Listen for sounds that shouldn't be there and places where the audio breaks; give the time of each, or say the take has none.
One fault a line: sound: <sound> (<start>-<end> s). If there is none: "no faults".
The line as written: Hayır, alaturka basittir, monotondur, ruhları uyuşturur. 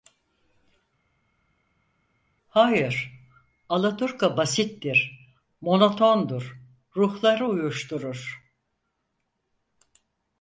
no faults